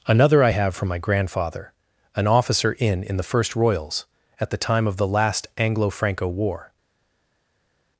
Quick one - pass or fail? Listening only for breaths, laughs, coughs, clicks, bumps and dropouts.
pass